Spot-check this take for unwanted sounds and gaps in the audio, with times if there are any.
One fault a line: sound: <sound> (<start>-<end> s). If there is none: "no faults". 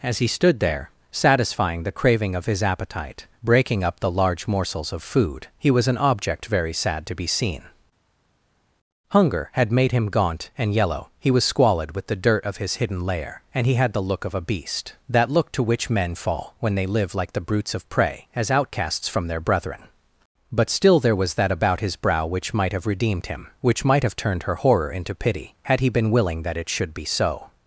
no faults